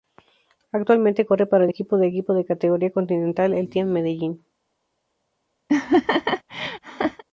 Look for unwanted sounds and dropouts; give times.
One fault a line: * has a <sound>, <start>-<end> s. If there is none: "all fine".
* has a laugh, 5.7-7.2 s